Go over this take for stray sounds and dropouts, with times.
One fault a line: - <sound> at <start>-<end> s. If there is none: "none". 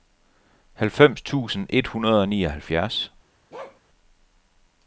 - bark at 3.5-3.8 s